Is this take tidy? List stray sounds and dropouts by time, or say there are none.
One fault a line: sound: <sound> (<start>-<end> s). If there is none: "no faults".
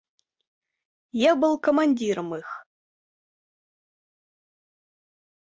no faults